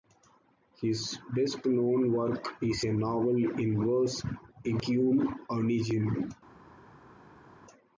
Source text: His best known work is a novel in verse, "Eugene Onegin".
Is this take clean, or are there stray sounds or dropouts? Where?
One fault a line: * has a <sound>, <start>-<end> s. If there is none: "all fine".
all fine